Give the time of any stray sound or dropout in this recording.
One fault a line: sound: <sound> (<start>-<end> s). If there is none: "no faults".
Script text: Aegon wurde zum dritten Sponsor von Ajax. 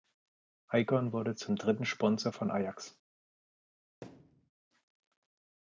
sound: thud (4.0-4.5 s)